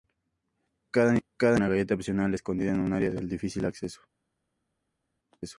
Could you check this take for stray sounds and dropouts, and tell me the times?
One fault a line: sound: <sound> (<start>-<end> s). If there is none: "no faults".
no faults